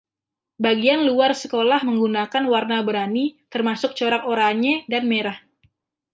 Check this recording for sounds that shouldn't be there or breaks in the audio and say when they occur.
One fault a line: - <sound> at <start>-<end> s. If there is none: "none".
none